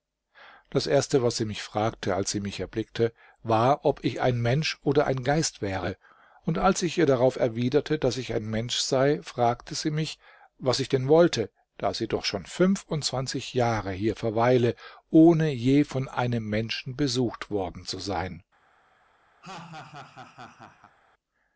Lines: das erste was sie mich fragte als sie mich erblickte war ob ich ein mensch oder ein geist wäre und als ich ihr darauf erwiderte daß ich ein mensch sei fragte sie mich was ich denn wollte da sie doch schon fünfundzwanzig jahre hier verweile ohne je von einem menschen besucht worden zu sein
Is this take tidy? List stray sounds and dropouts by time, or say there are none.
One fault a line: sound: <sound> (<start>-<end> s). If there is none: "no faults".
sound: laugh (19.4-21.0 s)